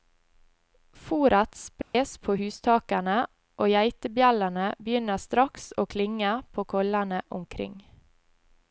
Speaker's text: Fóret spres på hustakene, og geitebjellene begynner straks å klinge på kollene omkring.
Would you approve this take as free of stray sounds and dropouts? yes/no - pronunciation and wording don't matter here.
no